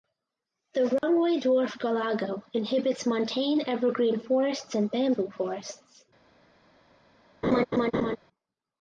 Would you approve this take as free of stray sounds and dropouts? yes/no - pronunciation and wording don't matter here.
no